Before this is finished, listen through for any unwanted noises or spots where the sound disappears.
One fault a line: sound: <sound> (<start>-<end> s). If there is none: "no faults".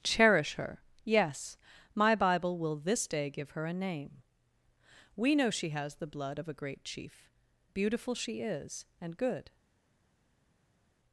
no faults